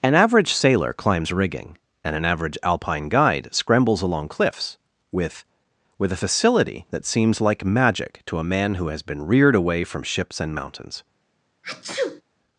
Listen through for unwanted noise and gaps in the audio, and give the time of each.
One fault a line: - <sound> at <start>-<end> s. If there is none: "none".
- sneeze at 11.6-12.2 s